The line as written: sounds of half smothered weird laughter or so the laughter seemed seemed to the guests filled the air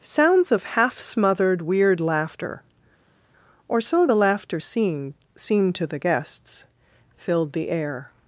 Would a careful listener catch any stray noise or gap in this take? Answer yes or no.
no